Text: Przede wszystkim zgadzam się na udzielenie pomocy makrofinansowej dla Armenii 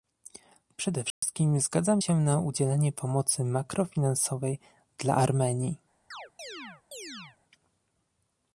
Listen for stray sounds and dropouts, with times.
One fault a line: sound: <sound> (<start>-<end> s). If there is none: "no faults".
sound: dropout (1.1-1.2 s)
sound: chirp (6.1-7.4 s)